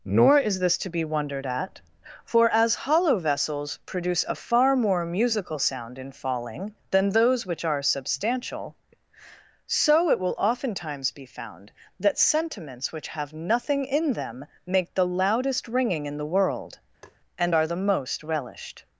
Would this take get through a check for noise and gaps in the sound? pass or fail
fail